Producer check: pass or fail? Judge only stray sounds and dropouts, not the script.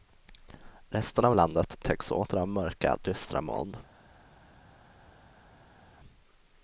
pass